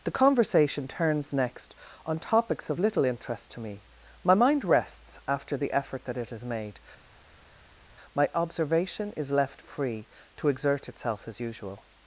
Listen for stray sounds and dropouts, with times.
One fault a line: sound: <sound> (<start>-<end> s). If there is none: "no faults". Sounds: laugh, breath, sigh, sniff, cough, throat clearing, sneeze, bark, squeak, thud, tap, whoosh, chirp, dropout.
no faults